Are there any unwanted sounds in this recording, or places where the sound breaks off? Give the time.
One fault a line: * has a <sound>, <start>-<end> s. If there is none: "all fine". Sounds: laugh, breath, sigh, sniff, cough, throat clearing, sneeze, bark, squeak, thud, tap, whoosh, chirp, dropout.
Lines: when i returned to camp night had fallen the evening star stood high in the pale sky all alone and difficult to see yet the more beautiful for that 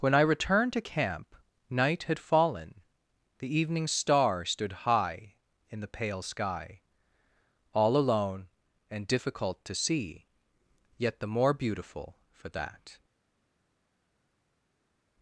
all fine